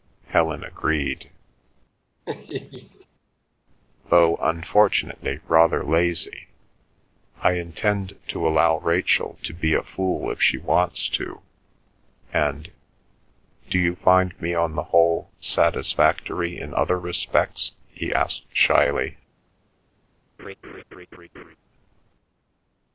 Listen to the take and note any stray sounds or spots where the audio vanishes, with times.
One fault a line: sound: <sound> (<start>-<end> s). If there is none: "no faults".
sound: laugh (2.2-3.1 s)
sound: laugh (20.4-21.6 s)